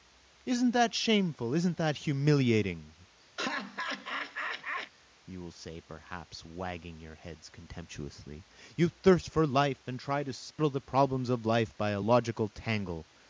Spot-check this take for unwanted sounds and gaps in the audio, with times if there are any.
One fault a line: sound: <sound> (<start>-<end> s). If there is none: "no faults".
sound: laugh (3.4-4.9 s)
sound: dropout (10.5-10.6 s)